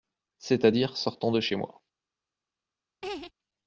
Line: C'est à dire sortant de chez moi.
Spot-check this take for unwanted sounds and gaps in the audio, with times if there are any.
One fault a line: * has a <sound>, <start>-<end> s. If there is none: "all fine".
* has a laugh, 3.0-3.3 s